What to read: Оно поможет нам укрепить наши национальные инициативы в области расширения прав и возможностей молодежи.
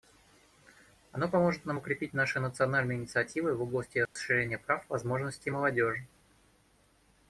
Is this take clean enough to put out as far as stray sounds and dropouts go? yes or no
no